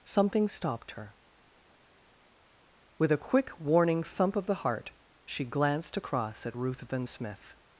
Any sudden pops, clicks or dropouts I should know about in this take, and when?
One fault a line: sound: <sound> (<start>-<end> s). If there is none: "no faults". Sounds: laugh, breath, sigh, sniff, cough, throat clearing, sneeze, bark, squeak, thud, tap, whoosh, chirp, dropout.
no faults